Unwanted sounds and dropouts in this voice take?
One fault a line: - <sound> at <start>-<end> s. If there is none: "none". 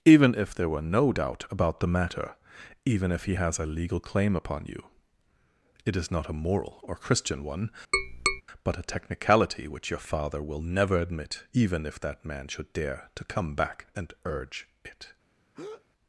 - tap at 7.9-8.4 s
- breath at 15.5-15.9 s